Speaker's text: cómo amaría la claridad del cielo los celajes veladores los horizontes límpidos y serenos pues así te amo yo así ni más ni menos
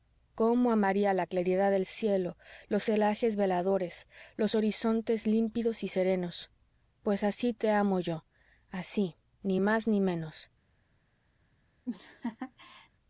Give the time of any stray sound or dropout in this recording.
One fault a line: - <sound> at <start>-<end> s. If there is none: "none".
- laugh at 11.8-12.9 s